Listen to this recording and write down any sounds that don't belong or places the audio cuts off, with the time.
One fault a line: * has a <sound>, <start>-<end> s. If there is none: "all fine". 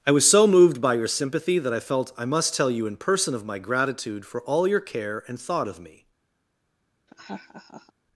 * has a laugh, 7.1-7.9 s